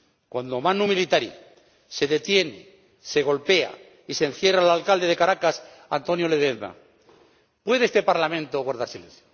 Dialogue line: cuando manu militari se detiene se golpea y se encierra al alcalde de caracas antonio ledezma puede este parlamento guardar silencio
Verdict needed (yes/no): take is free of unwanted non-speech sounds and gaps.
yes